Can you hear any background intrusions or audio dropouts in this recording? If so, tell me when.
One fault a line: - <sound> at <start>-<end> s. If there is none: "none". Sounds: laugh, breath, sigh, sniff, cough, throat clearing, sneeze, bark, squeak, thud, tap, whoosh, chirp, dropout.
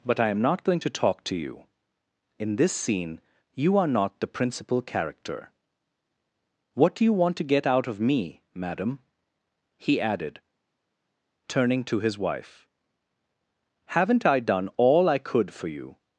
none